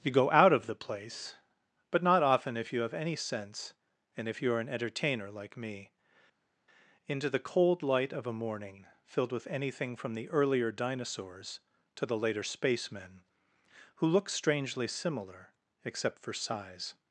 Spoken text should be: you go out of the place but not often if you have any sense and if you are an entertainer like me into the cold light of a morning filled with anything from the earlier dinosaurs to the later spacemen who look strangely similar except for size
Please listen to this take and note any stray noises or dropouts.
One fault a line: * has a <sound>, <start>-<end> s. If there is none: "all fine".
all fine